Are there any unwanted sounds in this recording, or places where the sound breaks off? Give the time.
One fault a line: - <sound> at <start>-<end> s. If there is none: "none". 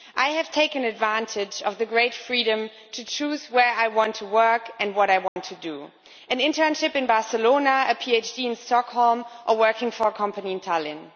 - dropout at 5.3-5.4 s